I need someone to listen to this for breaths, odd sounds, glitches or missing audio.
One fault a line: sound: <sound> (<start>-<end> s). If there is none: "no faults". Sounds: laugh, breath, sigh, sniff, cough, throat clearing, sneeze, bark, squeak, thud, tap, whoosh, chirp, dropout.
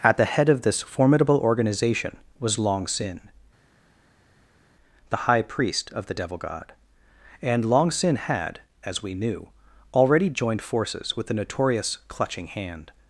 no faults